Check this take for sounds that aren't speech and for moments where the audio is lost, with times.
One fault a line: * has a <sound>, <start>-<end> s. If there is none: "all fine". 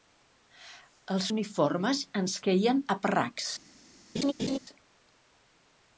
* has a laugh, 4.1-4.6 s